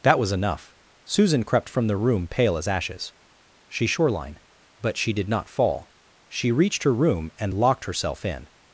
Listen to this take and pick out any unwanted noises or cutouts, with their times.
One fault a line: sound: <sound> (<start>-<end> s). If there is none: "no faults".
no faults